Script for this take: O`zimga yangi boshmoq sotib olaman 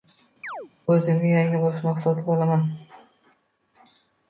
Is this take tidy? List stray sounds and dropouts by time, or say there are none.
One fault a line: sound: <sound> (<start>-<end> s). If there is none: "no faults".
sound: chirp (0.4-0.7 s)